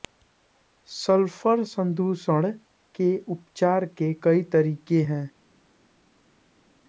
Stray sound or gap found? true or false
false